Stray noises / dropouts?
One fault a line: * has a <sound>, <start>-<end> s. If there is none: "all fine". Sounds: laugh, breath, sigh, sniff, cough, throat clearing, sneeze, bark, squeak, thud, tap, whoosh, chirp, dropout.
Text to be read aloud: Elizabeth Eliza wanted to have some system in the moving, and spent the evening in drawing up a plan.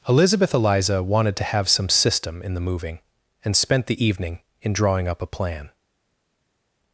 all fine